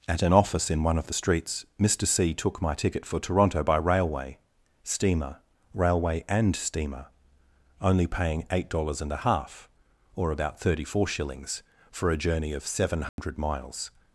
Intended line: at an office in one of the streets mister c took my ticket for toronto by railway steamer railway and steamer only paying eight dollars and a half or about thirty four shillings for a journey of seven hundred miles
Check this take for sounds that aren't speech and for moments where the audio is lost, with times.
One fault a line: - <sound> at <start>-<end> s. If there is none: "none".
- dropout at 13.1-13.2 s